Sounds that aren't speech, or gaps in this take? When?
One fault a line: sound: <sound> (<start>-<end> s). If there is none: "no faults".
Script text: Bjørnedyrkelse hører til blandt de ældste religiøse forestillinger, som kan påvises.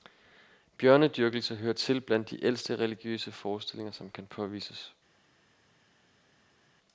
no faults